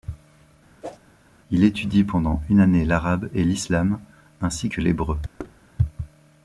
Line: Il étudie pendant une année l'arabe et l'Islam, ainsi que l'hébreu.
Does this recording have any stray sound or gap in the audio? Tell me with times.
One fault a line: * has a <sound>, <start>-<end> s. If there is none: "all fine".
* has a whoosh, 0.8-1.0 s
* has a thud, 5.4-5.6 s